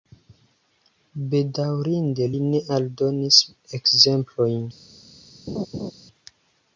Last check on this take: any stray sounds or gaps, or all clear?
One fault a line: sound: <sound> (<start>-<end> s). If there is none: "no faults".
sound: laugh (5.5-5.9 s)